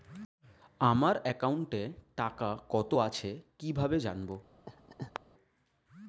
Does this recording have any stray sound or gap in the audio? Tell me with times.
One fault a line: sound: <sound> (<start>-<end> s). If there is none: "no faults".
sound: laugh (4.7-5.2 s)